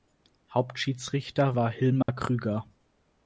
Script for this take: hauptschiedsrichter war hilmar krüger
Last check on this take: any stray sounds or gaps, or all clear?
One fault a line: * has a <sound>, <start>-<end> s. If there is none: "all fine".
* has a dropout, 2.0-2.1 s